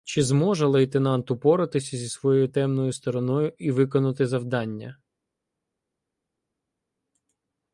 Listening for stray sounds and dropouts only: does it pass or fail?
pass